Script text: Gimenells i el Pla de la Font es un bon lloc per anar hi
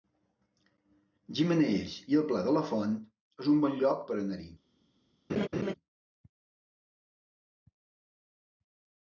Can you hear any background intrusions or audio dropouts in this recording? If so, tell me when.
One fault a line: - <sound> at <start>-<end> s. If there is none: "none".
- laugh at 5.3-5.7 s